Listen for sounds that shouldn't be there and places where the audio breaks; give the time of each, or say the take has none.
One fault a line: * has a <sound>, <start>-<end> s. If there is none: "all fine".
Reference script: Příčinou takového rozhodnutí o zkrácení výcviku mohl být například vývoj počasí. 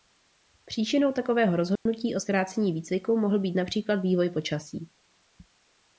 * has a dropout, 1.8-1.9 s